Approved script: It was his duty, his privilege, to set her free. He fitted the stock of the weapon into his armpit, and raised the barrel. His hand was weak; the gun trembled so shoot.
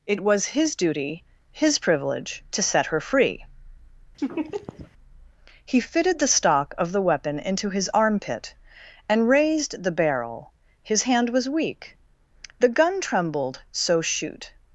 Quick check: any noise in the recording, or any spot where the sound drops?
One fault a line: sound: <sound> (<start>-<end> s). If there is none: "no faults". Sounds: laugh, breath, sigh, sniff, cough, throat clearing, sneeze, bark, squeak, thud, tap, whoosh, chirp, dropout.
sound: laugh (4.2-4.9 s)